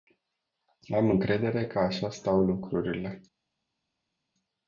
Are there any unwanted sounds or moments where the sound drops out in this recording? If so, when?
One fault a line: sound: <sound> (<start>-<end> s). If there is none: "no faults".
no faults